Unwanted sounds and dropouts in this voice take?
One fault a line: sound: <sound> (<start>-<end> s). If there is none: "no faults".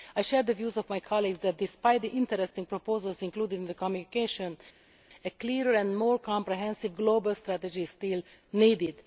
no faults